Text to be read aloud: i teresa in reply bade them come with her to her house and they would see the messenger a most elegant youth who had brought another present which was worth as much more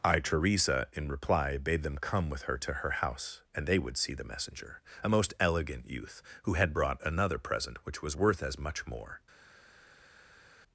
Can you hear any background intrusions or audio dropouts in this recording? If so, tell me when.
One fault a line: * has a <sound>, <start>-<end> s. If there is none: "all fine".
all fine